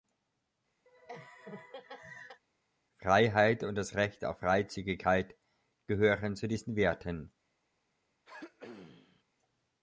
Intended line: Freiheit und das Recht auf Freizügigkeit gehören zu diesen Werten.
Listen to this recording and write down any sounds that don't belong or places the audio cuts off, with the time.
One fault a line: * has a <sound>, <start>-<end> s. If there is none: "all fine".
* has a laugh, 0.9-2.4 s
* has a throat clearing, 8.3-9.2 s